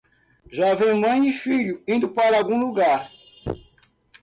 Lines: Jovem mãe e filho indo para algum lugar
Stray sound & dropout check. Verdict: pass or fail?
pass